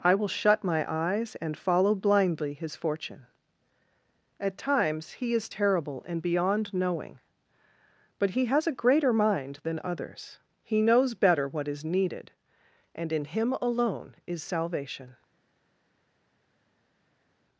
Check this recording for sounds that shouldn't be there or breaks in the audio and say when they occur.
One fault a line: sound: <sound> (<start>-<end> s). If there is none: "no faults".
no faults